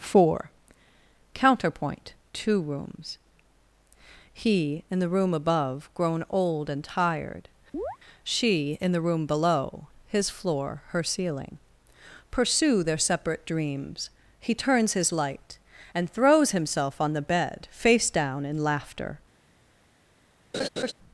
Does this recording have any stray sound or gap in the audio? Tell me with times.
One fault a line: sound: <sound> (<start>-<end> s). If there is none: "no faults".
sound: chirp (7.7-8.0 s)
sound: laugh (20.5-20.9 s)